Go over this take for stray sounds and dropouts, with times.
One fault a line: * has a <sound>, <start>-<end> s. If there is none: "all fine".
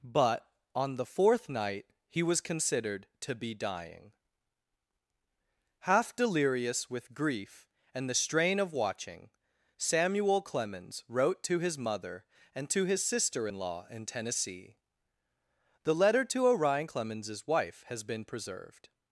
all fine